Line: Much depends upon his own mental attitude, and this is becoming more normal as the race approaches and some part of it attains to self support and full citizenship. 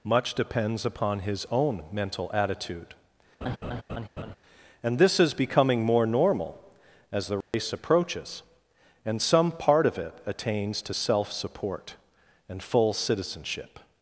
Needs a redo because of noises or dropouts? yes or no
yes